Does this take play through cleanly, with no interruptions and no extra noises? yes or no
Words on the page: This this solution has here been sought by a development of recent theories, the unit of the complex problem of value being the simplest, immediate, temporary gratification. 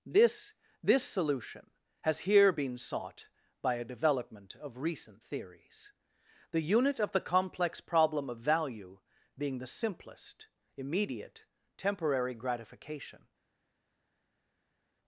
yes